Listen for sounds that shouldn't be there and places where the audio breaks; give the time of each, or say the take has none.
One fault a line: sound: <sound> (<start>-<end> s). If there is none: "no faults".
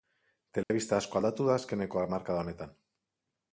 sound: dropout (0.6-0.7 s)